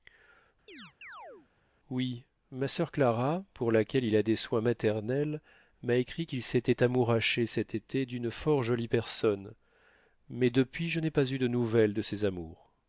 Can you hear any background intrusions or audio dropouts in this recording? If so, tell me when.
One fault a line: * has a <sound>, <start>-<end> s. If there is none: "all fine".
* has a chirp, 0.7-1.5 s